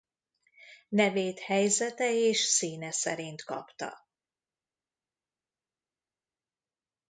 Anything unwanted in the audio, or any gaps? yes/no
no